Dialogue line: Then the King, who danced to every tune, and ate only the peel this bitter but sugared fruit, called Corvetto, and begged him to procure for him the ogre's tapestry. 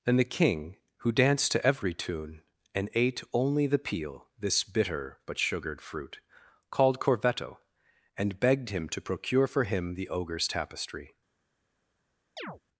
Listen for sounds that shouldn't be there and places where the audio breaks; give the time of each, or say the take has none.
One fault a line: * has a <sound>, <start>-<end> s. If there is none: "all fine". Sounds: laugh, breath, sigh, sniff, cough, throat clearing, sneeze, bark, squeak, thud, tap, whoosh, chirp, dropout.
* has a chirp, 12.4-12.6 s